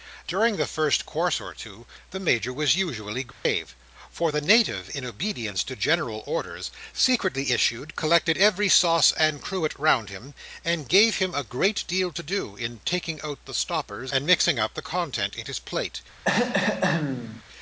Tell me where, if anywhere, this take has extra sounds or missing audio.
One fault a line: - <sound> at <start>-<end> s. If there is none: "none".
- dropout at 3.3-3.5 s
- throat clearing at 16.2-17.4 s